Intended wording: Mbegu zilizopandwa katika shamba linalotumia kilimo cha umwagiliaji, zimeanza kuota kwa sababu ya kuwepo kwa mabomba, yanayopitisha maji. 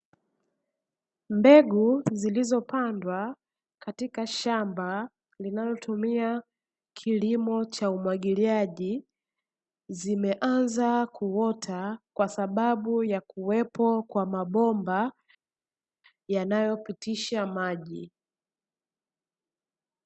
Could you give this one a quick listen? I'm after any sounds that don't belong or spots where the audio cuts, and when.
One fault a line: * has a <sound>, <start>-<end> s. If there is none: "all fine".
all fine